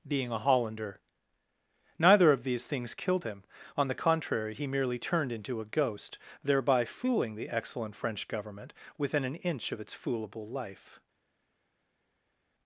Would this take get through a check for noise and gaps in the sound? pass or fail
pass